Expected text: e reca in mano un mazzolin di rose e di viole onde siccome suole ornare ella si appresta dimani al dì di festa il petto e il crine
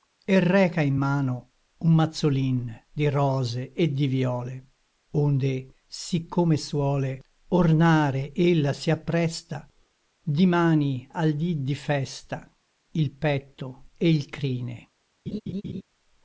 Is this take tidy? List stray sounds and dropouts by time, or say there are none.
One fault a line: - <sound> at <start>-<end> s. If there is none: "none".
- laugh at 15.3-15.8 s